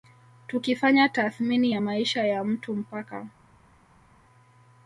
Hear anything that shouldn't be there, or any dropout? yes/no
no